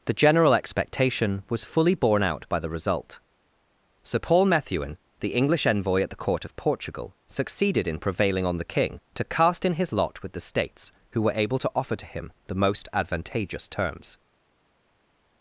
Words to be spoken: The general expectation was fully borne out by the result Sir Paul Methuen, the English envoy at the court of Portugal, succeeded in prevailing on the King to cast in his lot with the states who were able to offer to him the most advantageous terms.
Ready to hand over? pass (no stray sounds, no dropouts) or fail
pass